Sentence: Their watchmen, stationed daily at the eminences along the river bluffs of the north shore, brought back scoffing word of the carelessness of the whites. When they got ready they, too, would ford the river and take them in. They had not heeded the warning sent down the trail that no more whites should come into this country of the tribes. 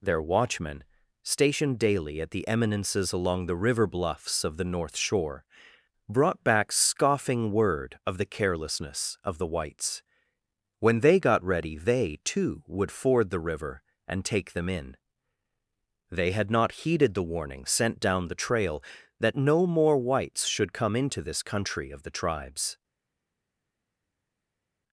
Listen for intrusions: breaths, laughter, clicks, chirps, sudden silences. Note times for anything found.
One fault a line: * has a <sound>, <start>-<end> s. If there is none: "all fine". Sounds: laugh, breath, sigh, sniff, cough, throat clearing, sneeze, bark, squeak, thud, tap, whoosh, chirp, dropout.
all fine